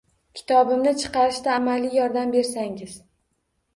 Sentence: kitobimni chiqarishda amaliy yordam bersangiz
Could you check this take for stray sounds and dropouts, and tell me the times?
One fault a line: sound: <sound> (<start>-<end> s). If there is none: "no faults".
no faults